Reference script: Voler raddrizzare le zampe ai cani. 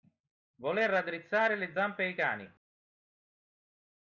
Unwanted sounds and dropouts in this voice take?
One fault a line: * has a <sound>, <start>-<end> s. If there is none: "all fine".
all fine